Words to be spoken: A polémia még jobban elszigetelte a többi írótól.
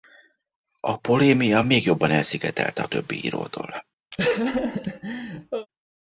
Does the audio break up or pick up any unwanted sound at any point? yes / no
yes